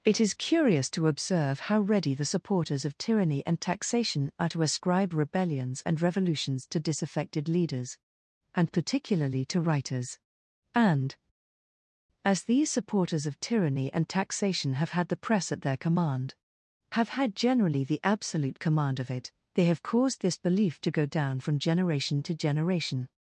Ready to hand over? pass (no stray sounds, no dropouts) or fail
pass